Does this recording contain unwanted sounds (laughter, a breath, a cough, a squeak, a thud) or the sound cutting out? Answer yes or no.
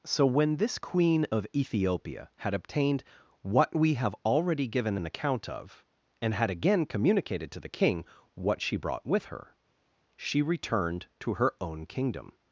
no